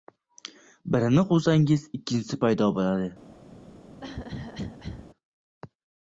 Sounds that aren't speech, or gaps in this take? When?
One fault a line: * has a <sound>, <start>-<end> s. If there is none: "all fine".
* has a cough, 4.0-5.1 s